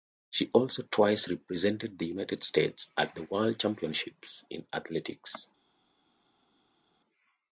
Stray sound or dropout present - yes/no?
no